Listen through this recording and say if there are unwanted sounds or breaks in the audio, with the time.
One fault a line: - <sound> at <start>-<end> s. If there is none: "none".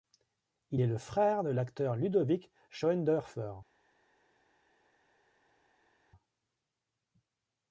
none